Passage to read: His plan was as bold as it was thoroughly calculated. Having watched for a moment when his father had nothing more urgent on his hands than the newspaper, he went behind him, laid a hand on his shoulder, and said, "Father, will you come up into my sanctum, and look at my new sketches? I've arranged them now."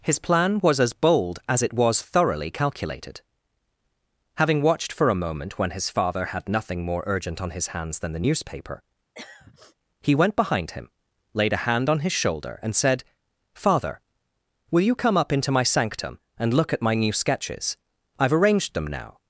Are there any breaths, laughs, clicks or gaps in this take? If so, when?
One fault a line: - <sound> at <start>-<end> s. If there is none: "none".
- throat clearing at 9.1-9.8 s